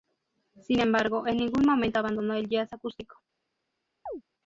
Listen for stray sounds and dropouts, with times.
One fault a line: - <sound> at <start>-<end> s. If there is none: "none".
- chirp at 4.1-4.2 s